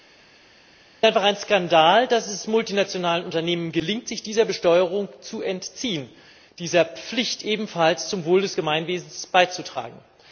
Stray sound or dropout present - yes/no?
no